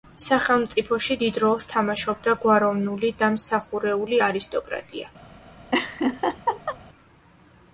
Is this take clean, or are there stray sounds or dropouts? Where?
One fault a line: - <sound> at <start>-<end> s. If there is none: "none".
- laugh at 5.7-6.8 s